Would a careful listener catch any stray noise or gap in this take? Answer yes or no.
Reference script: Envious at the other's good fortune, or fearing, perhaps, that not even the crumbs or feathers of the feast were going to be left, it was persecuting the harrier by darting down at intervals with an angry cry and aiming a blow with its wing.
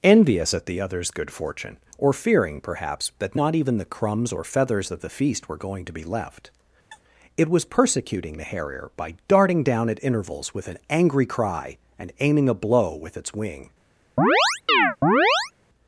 yes